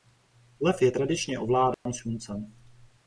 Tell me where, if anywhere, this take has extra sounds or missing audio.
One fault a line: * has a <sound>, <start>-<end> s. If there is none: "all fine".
* has a dropout, 1.7-1.9 s